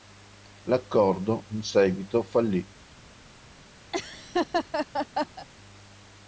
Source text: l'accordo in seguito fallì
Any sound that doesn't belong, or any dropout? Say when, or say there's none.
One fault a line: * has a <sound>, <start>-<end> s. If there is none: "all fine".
* has a laugh, 3.9-5.5 s